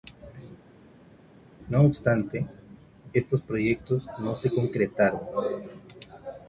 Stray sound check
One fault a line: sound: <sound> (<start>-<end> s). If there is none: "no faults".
no faults